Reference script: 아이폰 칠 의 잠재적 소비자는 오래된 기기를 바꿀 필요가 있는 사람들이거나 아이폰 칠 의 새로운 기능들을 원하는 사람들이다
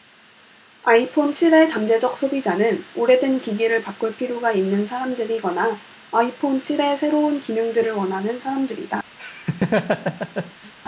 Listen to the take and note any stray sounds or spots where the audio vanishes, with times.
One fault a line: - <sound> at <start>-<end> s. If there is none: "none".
- laugh at 9.2-10.7 s